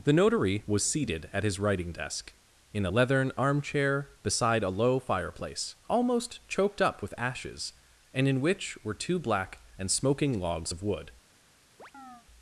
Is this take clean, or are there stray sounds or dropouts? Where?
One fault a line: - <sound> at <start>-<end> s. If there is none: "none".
- chirp at 11.8-12.3 s